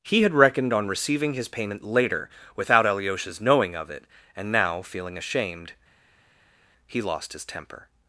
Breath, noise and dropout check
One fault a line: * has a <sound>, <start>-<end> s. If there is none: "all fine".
all fine